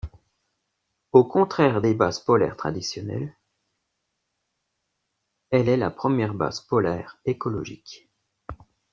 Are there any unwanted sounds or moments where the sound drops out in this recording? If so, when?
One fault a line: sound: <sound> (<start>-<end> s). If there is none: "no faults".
no faults